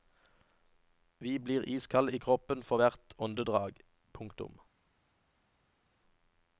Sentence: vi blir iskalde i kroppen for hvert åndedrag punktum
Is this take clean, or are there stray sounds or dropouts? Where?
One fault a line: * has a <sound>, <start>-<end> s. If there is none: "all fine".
all fine